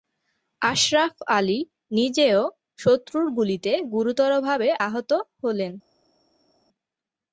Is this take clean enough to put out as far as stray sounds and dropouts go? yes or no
yes